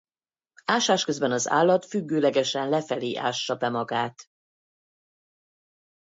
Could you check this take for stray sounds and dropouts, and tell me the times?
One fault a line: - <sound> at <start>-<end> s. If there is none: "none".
none